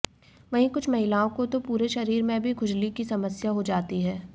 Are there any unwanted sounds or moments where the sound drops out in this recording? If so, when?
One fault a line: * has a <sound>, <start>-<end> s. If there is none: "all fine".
all fine